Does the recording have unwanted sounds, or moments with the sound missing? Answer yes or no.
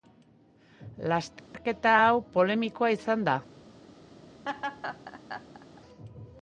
yes